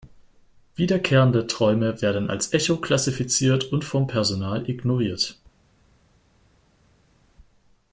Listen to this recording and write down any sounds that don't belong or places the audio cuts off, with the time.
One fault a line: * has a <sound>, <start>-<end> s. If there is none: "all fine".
all fine